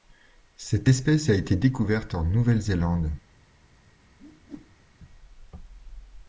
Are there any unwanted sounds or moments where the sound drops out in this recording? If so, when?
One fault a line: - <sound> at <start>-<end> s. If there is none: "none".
- whoosh at 4.2-5.0 s